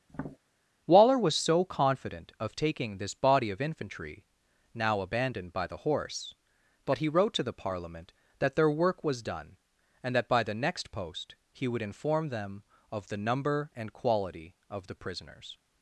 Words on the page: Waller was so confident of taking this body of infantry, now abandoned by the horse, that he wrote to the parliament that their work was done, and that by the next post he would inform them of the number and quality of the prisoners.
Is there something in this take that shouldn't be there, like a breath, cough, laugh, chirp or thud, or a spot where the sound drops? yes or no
yes